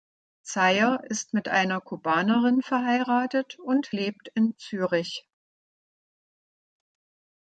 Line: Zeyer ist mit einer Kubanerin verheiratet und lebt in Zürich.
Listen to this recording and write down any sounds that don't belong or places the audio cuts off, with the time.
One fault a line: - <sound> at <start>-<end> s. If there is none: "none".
none